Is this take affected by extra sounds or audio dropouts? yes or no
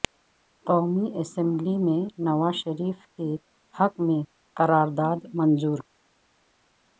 no